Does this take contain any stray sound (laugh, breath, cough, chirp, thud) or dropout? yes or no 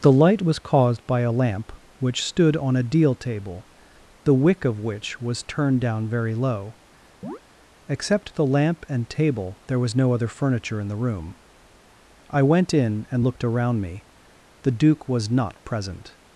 yes